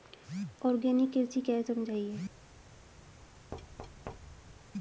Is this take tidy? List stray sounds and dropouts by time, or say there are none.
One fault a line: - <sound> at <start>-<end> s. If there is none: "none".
- thud at 3.5-4.6 s